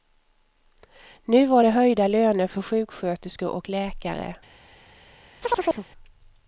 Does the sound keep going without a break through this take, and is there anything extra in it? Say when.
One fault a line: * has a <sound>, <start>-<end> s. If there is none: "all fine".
* has a chirp, 5.4-5.9 s